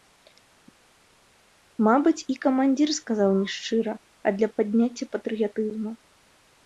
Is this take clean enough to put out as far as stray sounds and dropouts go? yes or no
yes